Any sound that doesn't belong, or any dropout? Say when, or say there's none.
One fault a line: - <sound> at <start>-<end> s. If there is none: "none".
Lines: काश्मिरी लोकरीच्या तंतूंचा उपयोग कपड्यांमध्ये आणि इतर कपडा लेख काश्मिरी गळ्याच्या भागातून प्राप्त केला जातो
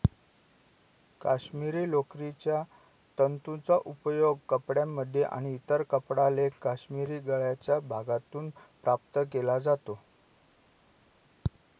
none